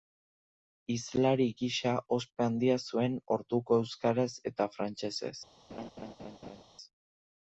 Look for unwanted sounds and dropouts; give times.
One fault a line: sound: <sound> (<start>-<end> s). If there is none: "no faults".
sound: laugh (5.7-6.6 s)